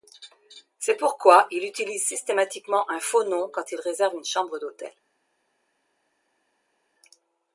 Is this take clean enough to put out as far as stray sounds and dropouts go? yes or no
yes